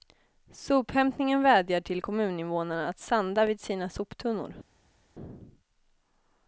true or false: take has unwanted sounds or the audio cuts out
false